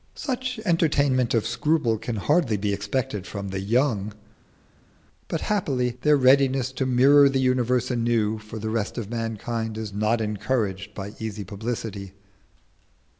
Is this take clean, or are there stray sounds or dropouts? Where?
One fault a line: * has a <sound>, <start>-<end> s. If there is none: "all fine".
all fine